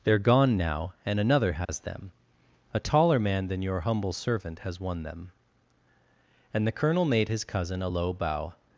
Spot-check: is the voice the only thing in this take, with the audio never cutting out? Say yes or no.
no